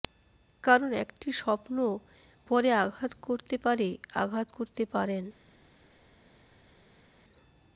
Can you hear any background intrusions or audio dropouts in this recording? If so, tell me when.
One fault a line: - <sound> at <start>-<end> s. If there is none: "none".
none